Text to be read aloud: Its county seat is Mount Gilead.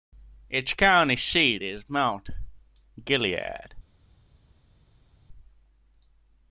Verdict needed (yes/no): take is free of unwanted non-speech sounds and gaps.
yes